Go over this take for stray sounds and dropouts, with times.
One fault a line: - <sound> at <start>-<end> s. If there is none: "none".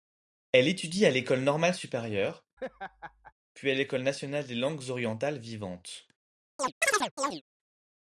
- laugh at 2.6-3.3 s
- chirp at 6.6-7.4 s